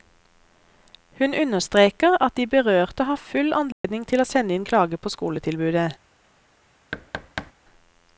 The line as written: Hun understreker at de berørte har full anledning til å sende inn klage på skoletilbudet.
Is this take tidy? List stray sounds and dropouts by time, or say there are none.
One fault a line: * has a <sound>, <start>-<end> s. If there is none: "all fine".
* has a dropout, 3.7-3.8 s
* has a thud, 6.9-7.5 s